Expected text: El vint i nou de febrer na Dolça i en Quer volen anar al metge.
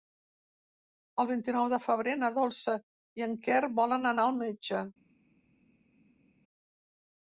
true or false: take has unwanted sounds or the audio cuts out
false